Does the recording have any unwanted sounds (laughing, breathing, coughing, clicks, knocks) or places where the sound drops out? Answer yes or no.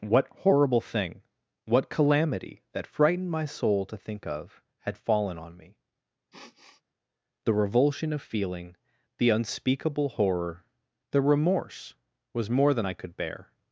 yes